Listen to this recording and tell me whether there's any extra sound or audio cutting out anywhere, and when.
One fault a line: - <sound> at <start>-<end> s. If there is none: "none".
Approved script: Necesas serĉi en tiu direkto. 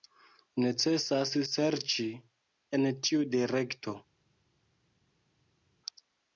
none